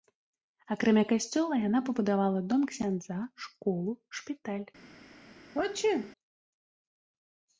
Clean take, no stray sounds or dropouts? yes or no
no